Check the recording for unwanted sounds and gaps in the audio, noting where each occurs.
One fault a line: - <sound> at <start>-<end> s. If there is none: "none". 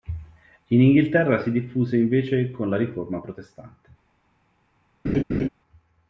- laugh at 5.0-5.5 s